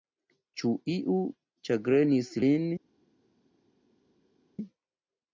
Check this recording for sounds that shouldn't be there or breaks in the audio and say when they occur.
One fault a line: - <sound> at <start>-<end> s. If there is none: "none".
none